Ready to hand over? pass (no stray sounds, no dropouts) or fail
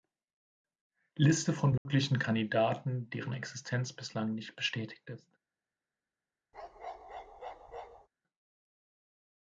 fail